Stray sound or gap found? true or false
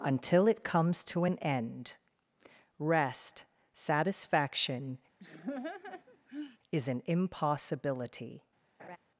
true